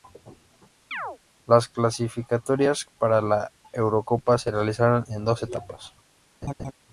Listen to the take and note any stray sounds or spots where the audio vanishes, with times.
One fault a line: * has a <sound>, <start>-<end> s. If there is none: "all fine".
* has a chirp, 0.9-1.2 s
* has a laugh, 6.4-6.7 s